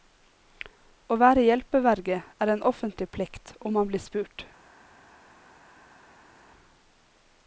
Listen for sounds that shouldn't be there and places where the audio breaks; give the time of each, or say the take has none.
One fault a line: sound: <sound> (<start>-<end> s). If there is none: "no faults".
no faults